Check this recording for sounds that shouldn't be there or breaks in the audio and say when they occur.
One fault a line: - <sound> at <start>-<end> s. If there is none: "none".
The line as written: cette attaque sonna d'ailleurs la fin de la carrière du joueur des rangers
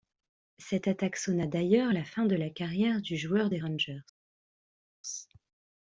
none